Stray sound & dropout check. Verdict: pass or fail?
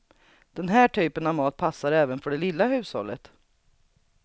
pass